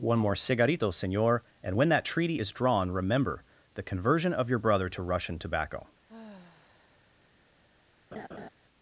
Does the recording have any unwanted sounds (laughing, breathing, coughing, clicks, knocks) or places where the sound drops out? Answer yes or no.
yes